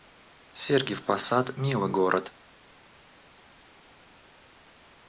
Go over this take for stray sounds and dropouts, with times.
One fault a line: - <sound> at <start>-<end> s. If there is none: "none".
none